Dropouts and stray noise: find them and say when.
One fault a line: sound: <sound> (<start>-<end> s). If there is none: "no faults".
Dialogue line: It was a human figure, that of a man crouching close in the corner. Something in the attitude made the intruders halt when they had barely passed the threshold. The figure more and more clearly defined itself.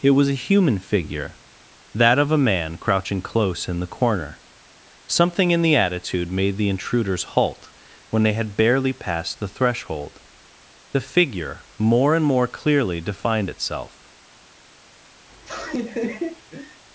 sound: laugh (15.3-16.8 s)